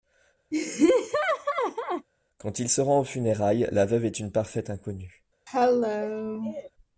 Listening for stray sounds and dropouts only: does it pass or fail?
fail